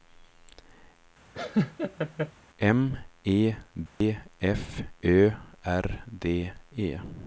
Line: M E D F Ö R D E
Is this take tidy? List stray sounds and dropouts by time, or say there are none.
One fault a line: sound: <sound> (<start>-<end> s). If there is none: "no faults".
sound: laugh (1.3-2.3 s)
sound: dropout (3.9-4.0 s)